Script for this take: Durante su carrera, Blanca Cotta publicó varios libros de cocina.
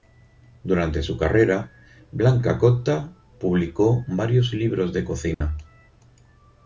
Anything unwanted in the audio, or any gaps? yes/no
yes